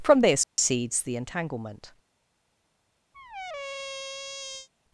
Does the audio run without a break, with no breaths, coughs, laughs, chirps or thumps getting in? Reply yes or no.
no